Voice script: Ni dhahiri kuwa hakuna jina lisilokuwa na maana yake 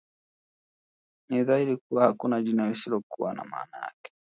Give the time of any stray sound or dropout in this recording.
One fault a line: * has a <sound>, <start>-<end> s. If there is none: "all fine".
all fine